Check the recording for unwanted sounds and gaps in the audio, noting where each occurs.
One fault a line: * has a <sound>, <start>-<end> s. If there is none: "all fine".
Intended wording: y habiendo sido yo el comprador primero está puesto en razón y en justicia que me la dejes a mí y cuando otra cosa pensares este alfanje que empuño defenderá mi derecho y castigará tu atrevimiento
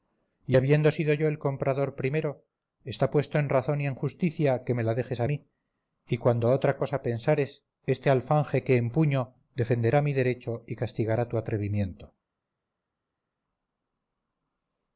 all fine